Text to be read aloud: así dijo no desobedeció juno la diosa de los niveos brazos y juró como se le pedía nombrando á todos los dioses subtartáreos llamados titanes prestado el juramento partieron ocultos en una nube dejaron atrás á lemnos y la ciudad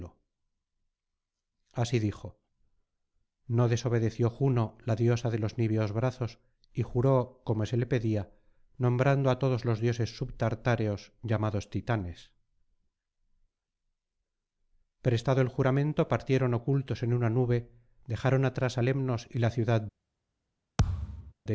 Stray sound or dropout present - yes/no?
yes